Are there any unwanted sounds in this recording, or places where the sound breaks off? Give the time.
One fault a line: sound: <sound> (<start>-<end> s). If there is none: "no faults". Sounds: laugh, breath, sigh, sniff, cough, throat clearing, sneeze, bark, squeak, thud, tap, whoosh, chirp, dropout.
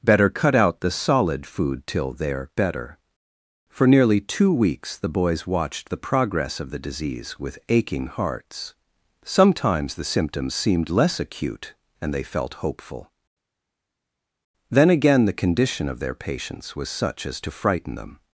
no faults